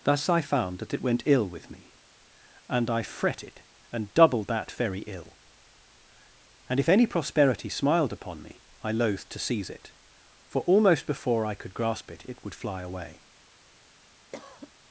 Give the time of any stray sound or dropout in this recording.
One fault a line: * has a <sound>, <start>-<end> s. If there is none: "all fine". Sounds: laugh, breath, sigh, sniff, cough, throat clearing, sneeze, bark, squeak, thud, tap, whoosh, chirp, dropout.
* has a cough, 14.3-14.7 s